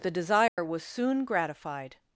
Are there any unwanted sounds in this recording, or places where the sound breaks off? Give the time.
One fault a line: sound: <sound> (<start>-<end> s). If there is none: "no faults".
sound: dropout (0.5-0.6 s)